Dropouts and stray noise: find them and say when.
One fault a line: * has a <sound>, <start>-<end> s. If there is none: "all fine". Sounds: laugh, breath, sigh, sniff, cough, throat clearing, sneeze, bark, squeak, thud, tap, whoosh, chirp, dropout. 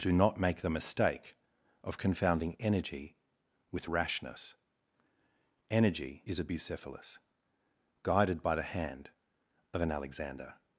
all fine